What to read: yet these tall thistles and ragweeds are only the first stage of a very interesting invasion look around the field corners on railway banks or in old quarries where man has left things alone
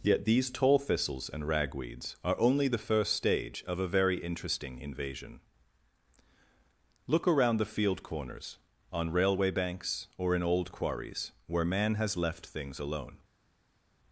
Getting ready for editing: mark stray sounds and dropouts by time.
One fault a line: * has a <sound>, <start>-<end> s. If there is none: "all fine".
all fine